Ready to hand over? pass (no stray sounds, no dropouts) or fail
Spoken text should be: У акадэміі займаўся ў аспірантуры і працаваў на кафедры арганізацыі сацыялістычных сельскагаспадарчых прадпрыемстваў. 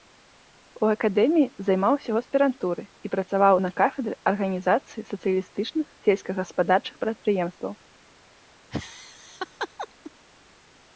fail